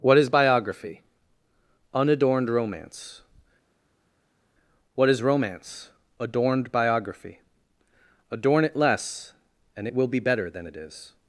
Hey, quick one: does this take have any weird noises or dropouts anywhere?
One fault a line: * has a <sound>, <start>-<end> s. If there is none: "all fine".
all fine